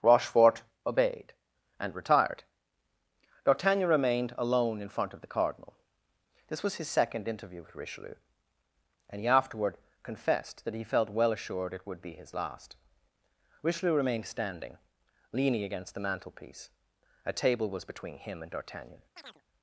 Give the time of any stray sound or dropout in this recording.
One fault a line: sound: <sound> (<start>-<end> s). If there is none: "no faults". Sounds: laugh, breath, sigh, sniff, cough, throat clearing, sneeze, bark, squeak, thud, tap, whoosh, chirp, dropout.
sound: chirp (19.2-19.4 s)